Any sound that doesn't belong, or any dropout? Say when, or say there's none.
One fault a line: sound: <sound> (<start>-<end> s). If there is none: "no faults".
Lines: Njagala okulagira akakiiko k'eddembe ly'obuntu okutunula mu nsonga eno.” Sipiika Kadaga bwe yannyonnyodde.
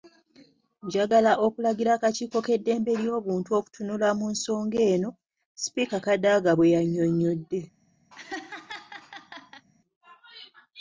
sound: laugh (8.1-9.7 s)